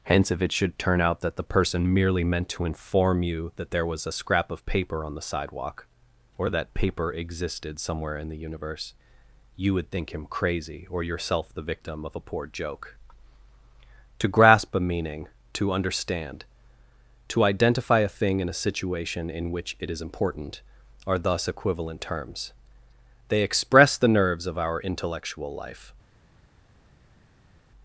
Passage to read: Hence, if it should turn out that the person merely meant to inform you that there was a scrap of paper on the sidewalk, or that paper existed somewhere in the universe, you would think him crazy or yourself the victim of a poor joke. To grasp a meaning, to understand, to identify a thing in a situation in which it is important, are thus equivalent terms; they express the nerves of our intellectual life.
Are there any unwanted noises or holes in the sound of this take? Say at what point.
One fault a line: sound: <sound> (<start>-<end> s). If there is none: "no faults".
no faults